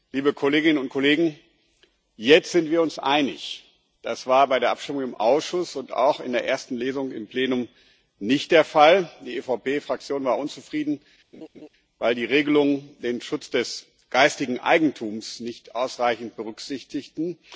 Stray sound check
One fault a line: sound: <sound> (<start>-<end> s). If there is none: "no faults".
sound: laugh (11.3-11.7 s)